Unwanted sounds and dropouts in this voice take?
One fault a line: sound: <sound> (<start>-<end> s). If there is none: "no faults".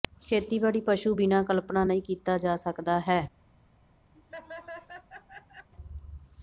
sound: laugh (4.1-5.7 s)